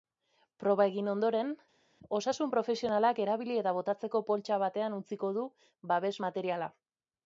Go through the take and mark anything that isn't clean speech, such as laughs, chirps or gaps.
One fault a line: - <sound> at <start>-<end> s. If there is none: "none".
none